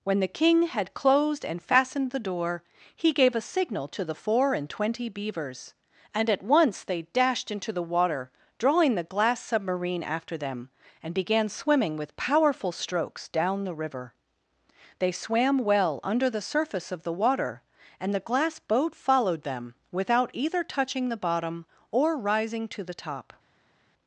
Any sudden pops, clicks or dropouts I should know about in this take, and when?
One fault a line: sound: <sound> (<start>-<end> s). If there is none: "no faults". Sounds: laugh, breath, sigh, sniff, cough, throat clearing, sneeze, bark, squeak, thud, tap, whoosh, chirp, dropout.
no faults